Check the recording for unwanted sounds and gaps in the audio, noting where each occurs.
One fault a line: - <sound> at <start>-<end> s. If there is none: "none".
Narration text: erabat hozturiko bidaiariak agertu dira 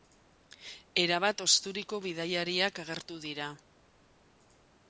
none